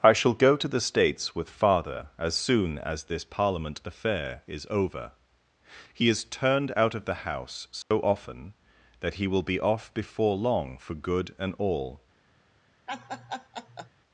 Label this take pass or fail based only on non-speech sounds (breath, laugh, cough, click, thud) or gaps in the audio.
fail